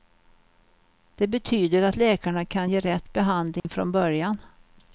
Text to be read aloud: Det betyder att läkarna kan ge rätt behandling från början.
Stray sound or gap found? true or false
true